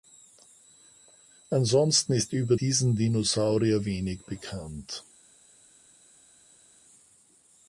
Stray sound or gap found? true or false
false